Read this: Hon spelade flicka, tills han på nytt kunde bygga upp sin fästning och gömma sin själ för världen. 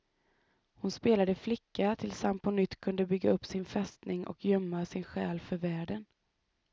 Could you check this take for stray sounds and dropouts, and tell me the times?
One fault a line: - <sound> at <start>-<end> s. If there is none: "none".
none